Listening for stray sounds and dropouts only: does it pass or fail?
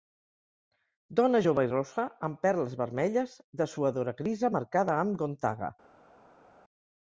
pass